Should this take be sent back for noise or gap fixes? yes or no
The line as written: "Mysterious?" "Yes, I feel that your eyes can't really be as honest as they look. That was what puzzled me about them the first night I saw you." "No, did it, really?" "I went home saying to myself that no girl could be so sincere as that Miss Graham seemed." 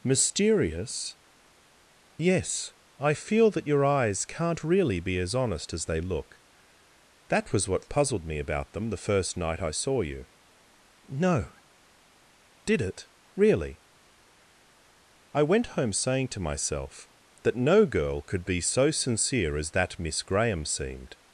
no